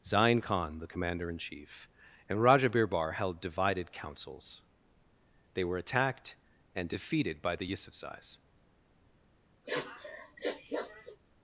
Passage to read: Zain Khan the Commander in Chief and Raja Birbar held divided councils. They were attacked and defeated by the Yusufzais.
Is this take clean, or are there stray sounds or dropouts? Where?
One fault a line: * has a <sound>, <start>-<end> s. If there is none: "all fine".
* has a sniff, 9.6-11.2 s